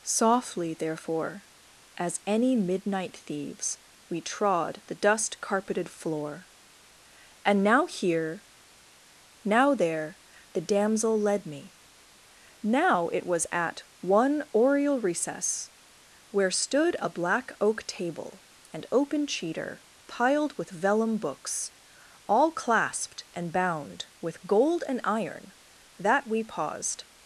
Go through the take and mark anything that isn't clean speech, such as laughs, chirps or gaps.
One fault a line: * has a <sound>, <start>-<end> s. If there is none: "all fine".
all fine